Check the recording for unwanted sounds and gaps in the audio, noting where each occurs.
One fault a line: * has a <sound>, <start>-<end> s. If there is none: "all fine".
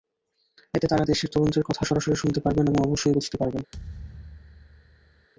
* has a thud, 3.7-5.3 s